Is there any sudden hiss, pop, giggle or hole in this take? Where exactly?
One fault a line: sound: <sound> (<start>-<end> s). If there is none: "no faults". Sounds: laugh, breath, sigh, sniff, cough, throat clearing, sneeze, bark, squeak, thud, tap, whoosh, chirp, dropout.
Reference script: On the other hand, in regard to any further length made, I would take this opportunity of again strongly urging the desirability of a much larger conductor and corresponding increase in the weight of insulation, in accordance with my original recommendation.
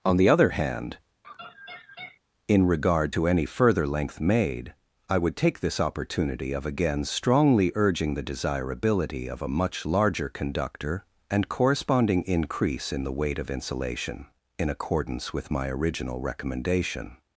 sound: laugh (1.2-2.2 s)